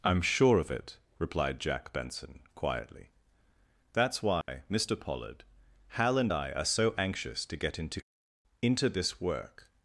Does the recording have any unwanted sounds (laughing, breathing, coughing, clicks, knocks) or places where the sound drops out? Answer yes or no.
yes